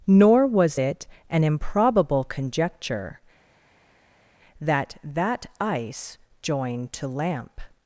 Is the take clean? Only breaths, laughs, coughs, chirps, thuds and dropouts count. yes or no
yes